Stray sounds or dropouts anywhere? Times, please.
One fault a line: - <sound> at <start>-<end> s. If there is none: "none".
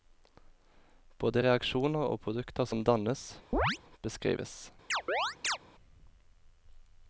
- chirp at 3.5-3.8 s
- chirp at 4.9-5.6 s